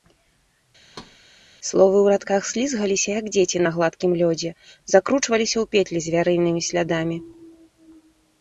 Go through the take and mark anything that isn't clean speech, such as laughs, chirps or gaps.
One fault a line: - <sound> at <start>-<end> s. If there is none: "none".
- thud at 0.9-1.2 s